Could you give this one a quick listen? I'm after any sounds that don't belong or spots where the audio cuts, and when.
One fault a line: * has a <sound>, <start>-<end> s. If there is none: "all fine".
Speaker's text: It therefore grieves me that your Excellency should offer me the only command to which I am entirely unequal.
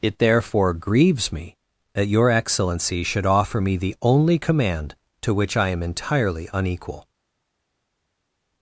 all fine